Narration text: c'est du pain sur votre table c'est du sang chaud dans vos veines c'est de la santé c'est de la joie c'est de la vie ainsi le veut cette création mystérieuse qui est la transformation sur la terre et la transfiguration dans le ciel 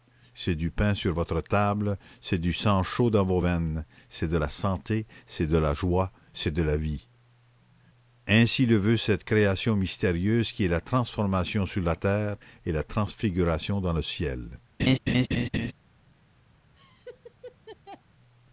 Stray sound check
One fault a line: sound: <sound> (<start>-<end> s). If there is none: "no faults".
sound: laugh (14.8-15.7 s)
sound: laugh (16.7-18.0 s)